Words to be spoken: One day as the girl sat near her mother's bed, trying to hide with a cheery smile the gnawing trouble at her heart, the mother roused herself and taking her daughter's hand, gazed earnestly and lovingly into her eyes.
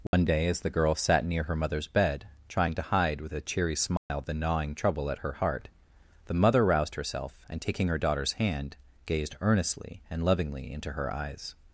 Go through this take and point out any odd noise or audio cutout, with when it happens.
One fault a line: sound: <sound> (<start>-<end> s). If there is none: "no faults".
sound: dropout (0.1-0.1 s)
sound: dropout (4.0-4.1 s)